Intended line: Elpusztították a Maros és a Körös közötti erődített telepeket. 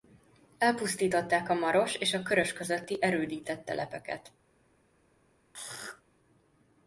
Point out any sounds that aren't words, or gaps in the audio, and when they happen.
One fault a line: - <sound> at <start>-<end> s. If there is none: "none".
- throat clearing at 5.5-6.0 s